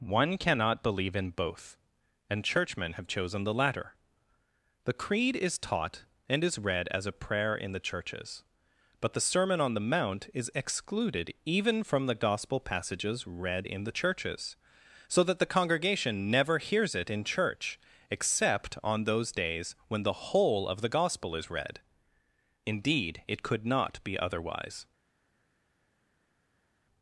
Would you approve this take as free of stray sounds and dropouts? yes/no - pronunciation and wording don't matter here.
yes